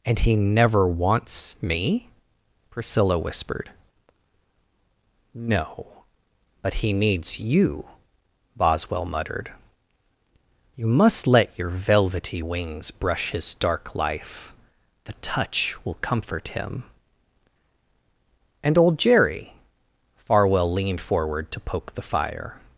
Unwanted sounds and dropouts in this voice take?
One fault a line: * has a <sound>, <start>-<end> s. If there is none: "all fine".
all fine